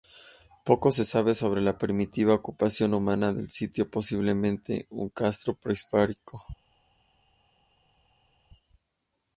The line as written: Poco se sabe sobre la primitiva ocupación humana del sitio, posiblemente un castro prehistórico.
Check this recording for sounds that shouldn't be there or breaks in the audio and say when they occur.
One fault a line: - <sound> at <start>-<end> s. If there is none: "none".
none